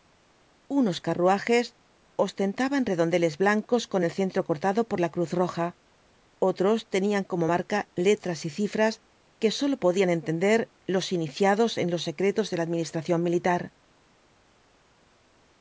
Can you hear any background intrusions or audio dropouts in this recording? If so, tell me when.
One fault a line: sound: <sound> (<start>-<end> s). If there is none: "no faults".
no faults